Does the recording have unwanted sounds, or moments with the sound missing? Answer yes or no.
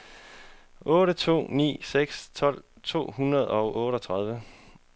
no